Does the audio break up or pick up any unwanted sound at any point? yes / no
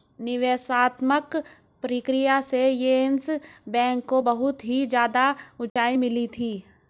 yes